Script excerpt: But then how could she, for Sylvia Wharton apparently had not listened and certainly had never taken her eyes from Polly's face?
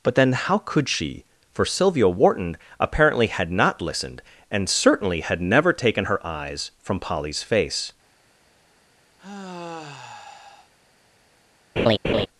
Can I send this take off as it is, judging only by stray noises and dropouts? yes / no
no